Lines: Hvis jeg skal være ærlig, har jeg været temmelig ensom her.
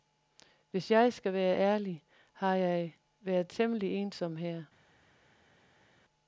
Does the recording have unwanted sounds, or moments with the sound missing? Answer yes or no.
no